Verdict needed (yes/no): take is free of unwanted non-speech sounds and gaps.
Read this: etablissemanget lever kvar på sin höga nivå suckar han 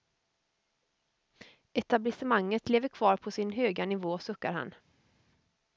yes